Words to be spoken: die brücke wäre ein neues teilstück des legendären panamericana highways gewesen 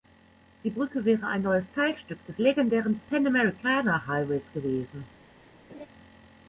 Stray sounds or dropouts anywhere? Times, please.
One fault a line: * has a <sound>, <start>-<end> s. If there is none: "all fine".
* has a laugh, 5.7-5.9 s